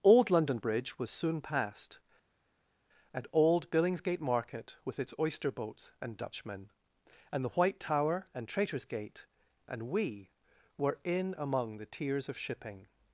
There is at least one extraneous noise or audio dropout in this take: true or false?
false